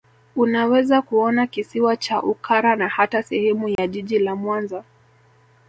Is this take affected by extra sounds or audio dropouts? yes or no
yes